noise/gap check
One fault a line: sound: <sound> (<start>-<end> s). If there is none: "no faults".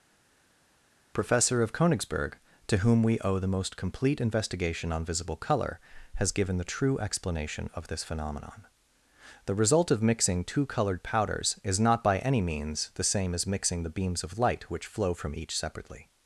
no faults